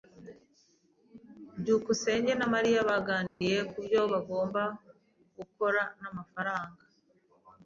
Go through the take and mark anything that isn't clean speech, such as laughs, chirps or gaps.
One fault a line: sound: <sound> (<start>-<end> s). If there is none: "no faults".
sound: dropout (3.3-3.4 s)